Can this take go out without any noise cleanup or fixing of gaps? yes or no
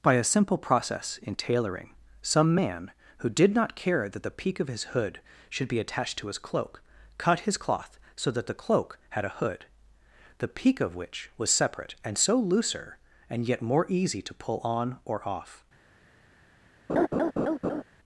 no